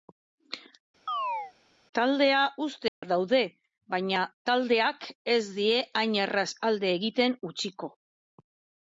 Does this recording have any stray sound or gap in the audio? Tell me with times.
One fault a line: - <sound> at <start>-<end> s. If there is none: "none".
- chirp at 1.1-1.5 s
- dropout at 2.9-3.0 s